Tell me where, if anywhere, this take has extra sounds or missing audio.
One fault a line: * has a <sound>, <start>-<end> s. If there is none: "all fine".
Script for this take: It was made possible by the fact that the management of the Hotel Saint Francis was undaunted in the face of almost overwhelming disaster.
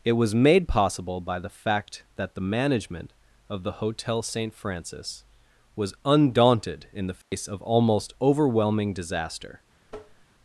* has a dropout, 7.2-7.3 s
* has a tap, 9.9-10.3 s